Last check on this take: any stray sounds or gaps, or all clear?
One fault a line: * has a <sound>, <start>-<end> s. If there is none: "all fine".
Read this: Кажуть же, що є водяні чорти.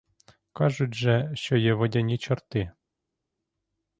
all fine